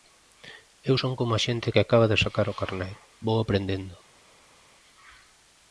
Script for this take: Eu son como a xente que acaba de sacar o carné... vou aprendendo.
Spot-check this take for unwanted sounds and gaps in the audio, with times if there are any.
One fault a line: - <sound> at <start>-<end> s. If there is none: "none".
none